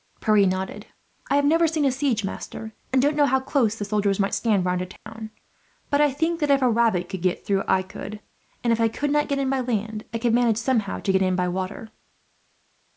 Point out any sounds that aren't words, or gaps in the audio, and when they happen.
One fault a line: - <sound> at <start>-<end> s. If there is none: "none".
- dropout at 5.0-5.1 s